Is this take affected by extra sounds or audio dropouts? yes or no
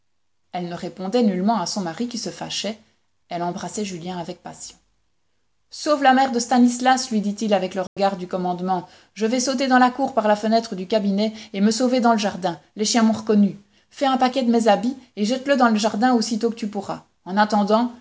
yes